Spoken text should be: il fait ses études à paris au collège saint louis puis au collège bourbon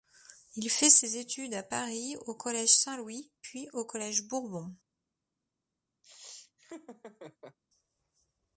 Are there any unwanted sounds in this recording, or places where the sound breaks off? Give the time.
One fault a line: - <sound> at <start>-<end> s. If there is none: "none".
- laugh at 6.0-7.6 s